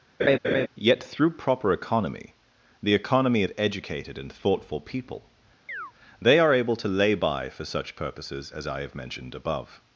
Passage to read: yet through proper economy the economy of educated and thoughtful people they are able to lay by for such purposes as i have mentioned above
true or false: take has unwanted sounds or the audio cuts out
true